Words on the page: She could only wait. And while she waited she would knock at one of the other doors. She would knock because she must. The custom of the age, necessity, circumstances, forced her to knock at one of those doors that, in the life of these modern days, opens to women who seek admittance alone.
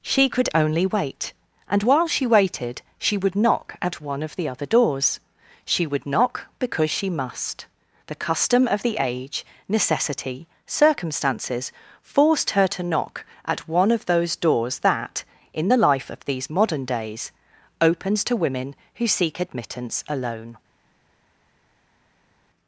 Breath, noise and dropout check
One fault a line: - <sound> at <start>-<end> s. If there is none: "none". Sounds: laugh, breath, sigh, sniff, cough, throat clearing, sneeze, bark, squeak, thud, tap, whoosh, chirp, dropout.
none